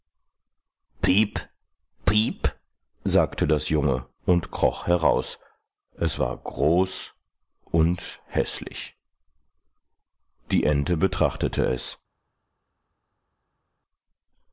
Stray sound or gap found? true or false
false